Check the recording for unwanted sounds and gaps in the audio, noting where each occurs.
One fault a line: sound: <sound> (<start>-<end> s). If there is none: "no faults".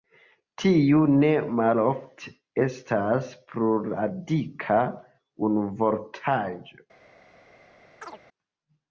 sound: chirp (8.0-8.2 s)